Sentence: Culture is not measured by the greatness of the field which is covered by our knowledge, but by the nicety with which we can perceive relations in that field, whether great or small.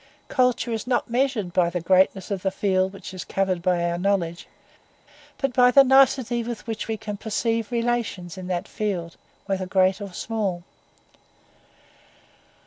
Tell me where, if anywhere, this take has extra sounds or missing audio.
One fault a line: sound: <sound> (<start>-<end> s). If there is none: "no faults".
no faults